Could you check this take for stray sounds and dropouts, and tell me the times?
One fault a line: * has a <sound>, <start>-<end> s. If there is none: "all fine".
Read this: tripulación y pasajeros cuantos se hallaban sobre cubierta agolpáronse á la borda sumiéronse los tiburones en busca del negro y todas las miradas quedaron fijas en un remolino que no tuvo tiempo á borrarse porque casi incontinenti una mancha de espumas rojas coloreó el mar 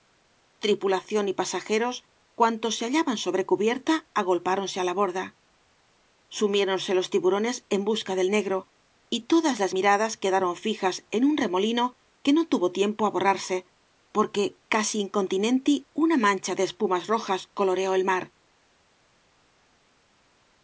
all fine